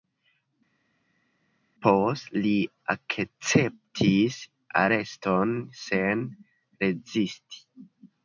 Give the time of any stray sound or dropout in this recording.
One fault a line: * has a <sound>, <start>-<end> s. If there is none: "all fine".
all fine